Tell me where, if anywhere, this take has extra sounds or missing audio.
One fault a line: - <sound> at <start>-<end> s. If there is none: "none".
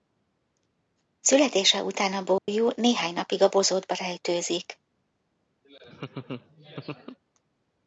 - dropout at 2.4-2.5 s
- laugh at 5.6-7.2 s